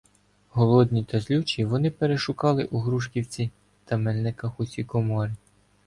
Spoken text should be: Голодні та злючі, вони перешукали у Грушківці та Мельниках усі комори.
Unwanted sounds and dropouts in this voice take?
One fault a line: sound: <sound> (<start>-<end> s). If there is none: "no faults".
no faults